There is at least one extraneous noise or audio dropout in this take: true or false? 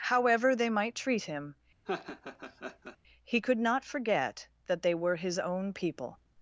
true